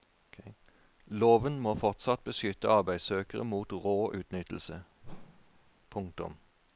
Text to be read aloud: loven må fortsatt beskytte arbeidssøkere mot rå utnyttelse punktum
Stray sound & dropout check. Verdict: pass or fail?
fail